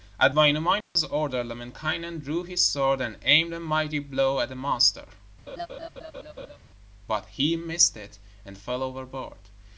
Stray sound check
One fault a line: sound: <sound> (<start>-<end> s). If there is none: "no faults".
sound: dropout (0.8-1.0 s)
sound: laugh (5.5-6.6 s)